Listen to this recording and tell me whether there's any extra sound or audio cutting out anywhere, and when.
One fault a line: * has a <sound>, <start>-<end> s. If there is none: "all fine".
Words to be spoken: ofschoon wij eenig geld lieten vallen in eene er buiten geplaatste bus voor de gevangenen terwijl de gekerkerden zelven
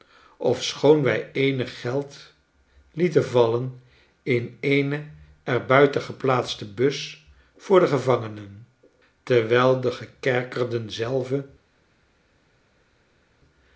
all fine